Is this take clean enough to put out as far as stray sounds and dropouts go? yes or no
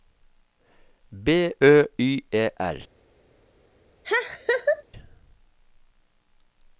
no